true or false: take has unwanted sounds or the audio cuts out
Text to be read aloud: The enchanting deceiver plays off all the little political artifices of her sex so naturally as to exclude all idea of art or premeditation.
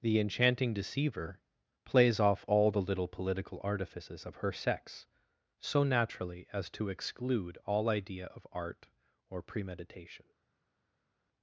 false